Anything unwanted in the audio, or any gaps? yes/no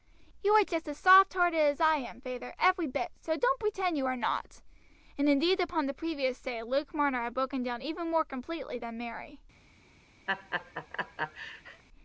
yes